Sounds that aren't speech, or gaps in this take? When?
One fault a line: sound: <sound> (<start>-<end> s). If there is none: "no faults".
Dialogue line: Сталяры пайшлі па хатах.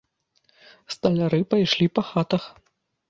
no faults